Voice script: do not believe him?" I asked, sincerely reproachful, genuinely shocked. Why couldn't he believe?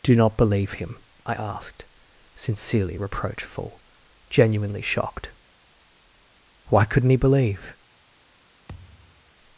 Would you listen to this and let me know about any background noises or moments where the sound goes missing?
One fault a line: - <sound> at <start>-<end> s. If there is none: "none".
- thud at 8.7-9.3 s